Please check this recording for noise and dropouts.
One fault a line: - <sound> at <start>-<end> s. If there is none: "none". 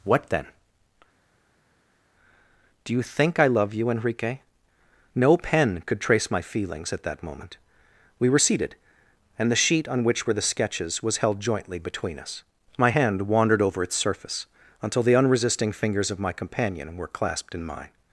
none